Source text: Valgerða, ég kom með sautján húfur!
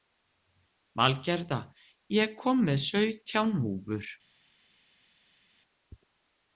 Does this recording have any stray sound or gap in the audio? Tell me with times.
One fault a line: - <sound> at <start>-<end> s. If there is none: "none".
none